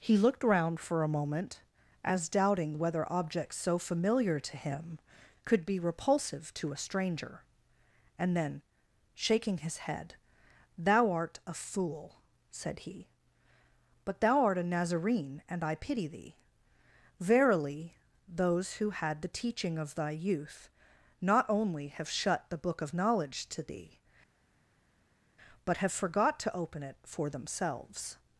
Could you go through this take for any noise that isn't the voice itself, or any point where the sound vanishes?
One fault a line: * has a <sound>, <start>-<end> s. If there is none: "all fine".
all fine